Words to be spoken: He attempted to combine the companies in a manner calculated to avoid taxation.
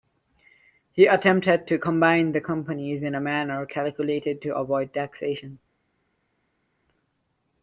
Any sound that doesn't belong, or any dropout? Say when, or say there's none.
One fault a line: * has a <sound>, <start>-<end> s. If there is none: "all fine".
all fine